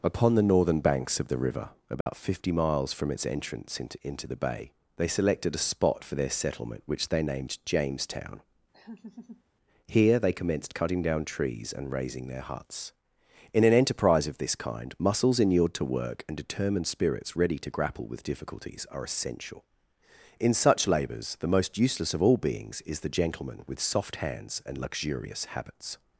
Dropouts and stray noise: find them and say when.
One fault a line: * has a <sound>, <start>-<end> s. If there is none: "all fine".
* has a dropout, 2.0-2.1 s
* has a laugh, 8.7-9.4 s